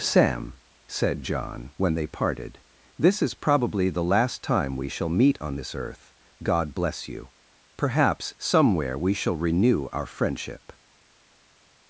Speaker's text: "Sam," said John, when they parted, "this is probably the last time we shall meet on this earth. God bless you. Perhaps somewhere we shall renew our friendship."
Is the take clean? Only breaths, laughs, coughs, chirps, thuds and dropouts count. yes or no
yes